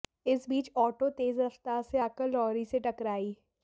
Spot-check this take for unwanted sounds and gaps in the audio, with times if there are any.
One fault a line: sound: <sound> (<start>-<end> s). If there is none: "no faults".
no faults